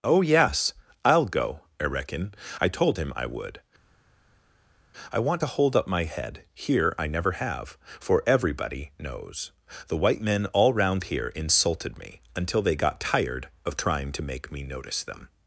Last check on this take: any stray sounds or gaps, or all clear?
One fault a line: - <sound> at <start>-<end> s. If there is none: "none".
none